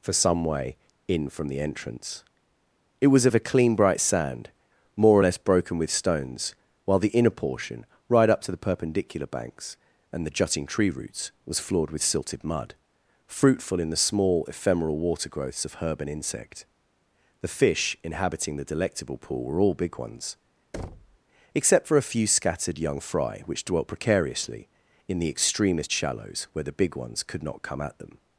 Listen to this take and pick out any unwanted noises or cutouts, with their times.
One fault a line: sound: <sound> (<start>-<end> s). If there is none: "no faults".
sound: thud (20.7-21.2 s)